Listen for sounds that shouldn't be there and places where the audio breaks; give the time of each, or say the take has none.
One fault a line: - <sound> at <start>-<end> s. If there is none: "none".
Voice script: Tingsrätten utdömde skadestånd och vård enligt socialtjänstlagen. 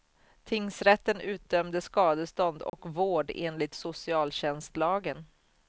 - dropout at 2.7-2.7 s